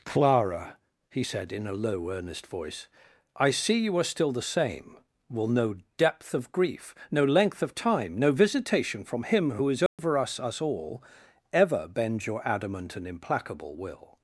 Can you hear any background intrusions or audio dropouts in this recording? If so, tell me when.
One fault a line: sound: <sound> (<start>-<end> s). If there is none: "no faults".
sound: dropout (9.9-10.0 s)